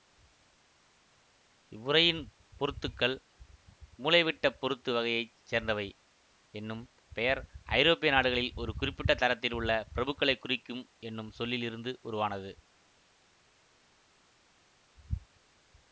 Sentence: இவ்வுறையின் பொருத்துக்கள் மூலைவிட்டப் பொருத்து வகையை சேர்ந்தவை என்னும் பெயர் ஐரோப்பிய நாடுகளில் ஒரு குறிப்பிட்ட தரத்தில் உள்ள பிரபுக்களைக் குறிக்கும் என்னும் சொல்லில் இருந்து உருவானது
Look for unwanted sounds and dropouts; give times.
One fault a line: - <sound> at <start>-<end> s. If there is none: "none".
none